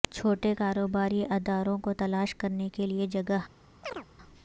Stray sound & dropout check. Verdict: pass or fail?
fail